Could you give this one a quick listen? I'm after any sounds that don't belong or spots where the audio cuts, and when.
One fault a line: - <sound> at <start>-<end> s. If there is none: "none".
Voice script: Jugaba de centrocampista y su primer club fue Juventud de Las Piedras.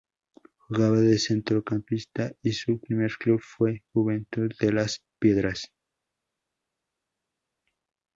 none